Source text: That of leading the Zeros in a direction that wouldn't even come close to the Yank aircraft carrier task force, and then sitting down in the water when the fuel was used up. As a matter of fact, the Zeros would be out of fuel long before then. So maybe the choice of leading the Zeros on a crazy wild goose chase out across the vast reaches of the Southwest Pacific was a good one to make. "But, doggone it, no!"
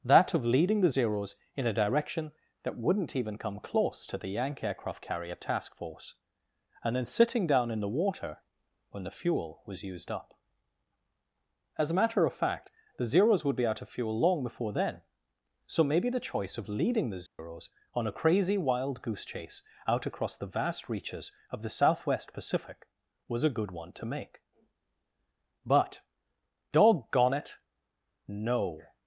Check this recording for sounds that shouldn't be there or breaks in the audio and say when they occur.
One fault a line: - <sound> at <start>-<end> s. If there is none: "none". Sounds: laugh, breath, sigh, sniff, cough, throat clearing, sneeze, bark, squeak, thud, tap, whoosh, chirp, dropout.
- dropout at 17.3-17.4 s